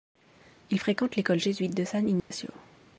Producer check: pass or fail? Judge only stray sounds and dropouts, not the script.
fail